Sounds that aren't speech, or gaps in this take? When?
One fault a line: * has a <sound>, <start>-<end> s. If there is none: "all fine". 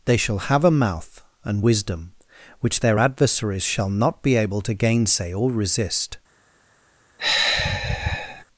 * has a sigh, 7.2-8.4 s